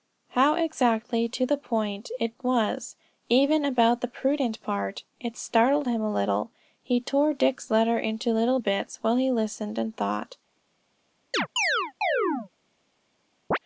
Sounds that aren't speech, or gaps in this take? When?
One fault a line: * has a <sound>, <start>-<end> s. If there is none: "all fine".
* has a chirp, 11.3-12.5 s
* has a chirp, 13.5-13.6 s